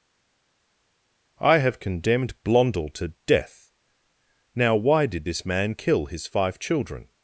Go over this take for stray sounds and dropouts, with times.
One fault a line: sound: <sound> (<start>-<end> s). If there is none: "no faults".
no faults